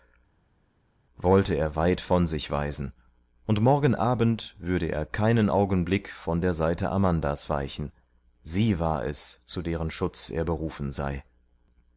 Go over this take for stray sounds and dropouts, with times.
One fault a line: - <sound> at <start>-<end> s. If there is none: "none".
none